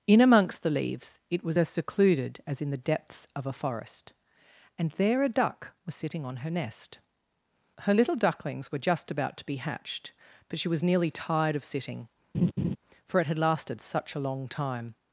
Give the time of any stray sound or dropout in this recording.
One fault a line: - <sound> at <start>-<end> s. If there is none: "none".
- laugh at 12.3-12.8 s